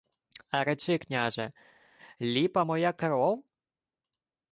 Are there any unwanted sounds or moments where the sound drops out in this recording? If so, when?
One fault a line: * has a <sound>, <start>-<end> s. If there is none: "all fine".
all fine